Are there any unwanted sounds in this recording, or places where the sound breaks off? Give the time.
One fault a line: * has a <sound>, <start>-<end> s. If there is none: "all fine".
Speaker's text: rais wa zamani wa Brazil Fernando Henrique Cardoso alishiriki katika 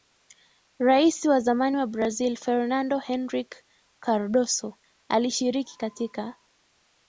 all fine